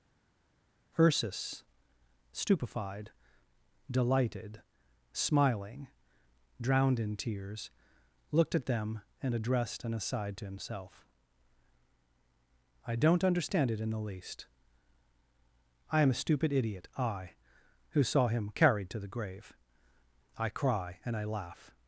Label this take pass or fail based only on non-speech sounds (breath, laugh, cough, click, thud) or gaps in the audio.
pass